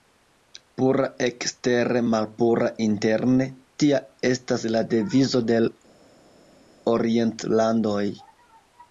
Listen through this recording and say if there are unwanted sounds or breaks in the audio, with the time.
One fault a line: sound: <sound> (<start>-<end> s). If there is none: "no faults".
no faults